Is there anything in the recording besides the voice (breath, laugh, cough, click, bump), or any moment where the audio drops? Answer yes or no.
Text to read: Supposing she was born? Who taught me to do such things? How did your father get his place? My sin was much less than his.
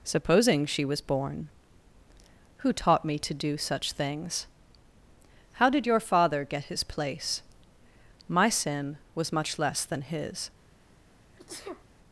yes